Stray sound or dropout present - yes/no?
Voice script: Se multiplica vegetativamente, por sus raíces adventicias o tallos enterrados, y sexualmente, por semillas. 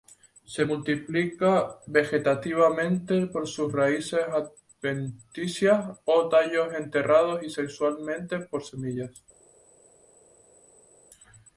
no